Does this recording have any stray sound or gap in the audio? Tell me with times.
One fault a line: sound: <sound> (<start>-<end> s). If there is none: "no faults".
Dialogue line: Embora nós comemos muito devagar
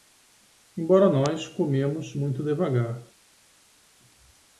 no faults